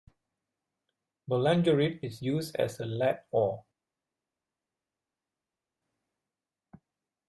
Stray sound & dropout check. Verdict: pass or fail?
pass